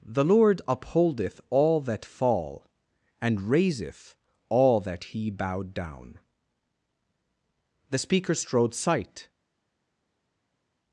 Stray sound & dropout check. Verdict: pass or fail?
pass